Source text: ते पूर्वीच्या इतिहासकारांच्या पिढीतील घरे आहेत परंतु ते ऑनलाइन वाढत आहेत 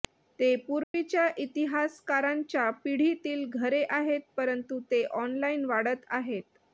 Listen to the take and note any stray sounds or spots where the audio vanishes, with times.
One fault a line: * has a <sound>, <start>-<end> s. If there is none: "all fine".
* has a dropout, 0.8-0.9 s